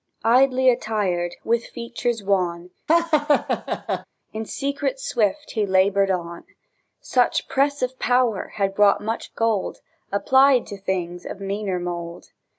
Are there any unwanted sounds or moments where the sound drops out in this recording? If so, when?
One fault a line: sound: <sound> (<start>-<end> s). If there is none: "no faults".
sound: laugh (2.9-4.1 s)